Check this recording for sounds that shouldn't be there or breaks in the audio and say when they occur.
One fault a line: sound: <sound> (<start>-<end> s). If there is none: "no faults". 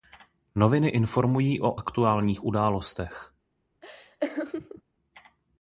sound: laugh (3.8-4.8 s)